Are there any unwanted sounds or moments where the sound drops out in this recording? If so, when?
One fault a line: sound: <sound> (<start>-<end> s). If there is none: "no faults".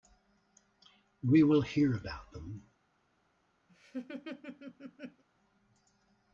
sound: laugh (3.7-5.2 s)